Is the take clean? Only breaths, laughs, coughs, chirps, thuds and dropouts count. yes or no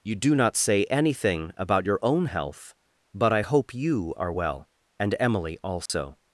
no